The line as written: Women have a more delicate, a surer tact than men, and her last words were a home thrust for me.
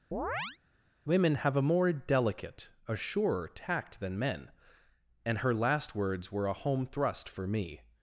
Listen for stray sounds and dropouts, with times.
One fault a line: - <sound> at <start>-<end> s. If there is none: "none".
- chirp at 0.1-0.6 s